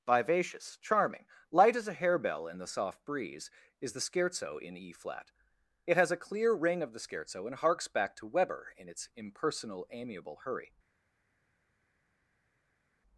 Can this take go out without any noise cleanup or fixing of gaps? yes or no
yes